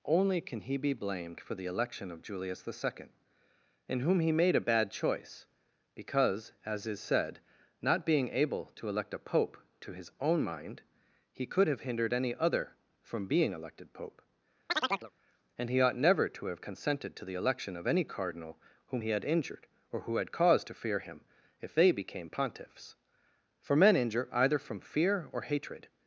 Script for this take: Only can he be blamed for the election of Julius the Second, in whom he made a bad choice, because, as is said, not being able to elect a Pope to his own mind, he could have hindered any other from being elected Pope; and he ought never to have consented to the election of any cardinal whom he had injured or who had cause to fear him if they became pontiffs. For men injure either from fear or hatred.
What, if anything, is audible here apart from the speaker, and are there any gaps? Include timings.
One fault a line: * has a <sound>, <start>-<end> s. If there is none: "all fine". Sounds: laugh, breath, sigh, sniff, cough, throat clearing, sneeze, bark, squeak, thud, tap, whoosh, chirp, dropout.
* has a chirp, 14.7-15.1 s